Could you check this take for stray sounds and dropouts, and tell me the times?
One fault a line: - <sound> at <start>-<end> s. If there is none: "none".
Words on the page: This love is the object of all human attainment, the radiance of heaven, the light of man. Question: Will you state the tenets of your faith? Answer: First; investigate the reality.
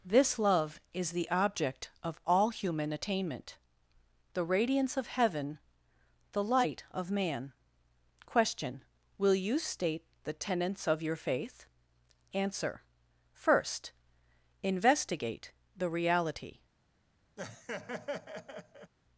- laugh at 17.4-18.9 s